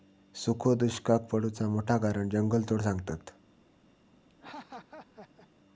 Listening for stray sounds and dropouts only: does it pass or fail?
fail